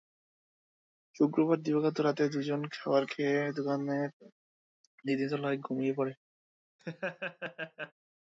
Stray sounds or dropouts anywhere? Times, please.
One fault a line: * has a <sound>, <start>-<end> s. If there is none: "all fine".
* has a laugh, 6.8-7.9 s